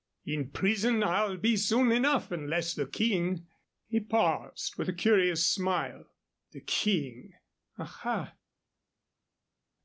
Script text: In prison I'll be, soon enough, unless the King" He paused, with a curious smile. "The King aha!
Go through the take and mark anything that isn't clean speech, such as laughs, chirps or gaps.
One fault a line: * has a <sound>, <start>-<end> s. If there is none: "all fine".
all fine